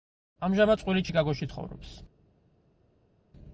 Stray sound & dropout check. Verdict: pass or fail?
pass